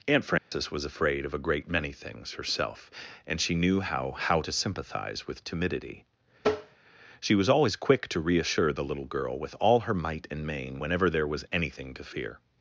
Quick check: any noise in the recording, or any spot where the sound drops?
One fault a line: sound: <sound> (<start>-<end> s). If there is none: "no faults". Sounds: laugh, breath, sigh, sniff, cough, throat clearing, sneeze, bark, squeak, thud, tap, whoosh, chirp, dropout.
sound: dropout (0.4-0.5 s)
sound: tap (6.4-6.8 s)